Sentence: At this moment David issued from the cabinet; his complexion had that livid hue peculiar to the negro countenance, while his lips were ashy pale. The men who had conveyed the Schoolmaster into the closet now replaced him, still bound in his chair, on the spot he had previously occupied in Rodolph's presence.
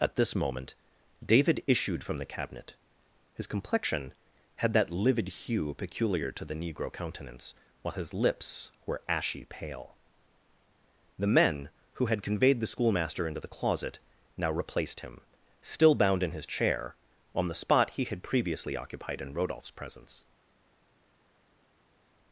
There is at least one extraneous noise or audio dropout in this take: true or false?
false